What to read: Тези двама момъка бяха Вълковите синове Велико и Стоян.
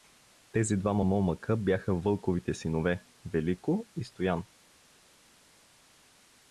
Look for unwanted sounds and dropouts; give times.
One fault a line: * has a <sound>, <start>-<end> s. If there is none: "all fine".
all fine